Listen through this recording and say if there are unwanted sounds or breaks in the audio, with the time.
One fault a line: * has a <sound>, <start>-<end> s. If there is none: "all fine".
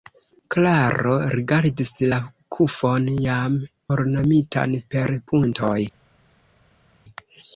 all fine